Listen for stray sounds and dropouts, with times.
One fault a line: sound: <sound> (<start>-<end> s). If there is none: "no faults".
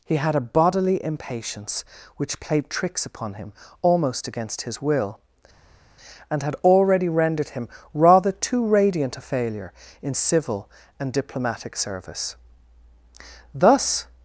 no faults